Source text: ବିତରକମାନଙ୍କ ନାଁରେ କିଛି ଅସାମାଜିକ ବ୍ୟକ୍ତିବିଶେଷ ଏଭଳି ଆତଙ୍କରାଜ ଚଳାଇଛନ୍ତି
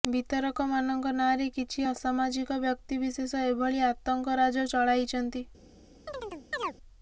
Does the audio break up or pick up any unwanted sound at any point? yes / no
yes